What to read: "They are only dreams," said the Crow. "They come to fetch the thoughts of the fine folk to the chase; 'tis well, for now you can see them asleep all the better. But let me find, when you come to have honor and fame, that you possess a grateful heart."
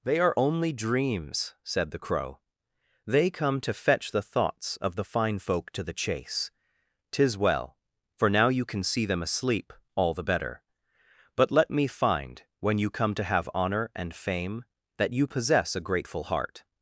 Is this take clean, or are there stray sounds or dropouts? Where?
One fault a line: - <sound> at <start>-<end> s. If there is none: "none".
none